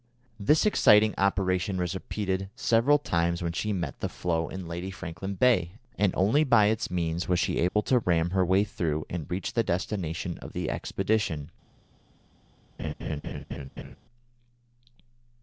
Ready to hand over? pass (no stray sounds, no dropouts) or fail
fail